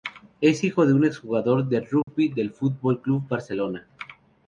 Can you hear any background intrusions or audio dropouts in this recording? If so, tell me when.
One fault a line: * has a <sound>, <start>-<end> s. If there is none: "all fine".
* has a dropout, 2.0-2.1 s